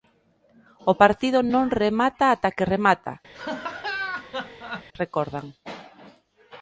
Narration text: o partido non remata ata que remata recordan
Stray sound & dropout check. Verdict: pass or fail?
fail